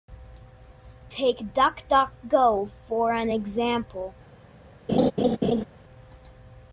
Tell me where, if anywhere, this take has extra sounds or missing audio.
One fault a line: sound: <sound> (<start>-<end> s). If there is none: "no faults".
sound: laugh (4.9-5.6 s)